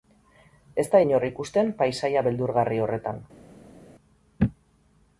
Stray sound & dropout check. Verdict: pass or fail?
pass